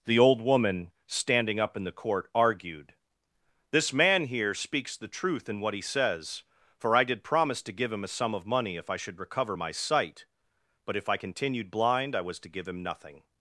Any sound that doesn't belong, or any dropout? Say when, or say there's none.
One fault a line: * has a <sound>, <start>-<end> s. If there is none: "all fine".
all fine